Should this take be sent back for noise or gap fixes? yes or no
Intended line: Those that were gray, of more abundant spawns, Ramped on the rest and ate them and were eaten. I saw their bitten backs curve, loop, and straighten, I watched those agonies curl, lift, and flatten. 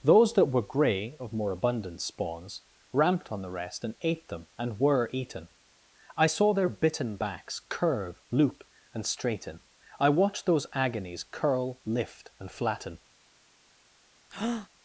yes